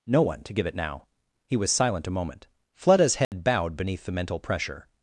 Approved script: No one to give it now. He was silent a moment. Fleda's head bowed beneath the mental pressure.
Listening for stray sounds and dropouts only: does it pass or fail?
fail